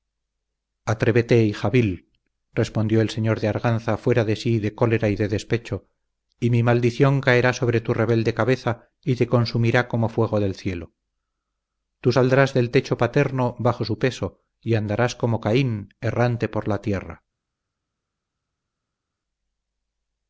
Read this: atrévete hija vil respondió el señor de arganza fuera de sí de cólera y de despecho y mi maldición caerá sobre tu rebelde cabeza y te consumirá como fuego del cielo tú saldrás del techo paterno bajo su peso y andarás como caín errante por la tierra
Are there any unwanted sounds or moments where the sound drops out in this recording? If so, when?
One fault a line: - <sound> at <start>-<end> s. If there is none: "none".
none